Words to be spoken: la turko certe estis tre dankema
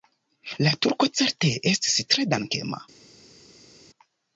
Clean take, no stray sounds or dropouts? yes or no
yes